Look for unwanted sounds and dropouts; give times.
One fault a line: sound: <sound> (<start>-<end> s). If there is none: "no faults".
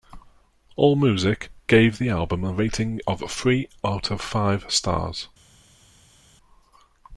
no faults